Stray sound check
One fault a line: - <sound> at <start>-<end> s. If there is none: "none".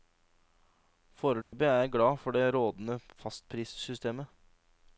- dropout at 1.4-1.5 s